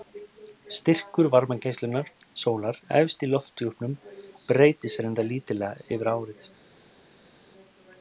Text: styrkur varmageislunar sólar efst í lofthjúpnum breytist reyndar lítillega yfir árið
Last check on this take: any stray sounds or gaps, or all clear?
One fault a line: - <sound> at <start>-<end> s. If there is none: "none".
none